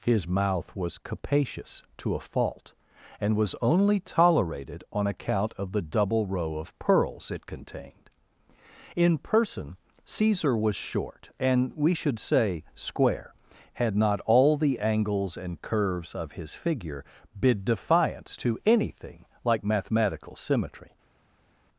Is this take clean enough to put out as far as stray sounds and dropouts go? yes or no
yes